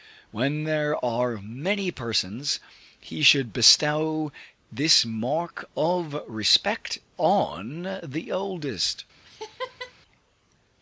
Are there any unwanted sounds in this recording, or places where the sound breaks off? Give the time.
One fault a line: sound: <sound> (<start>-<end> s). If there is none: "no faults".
sound: laugh (9.2-9.9 s)